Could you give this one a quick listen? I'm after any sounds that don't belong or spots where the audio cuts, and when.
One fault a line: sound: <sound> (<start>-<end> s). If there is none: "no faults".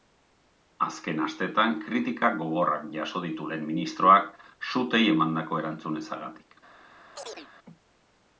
sound: chirp (7.2-7.5 s)